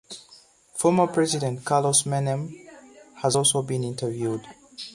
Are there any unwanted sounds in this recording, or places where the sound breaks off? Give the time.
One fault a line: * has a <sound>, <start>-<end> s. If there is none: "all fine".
all fine